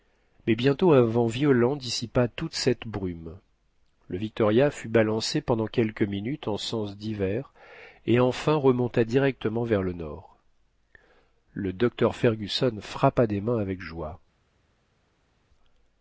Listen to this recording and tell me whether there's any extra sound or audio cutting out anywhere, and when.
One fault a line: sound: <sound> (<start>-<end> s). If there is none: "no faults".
no faults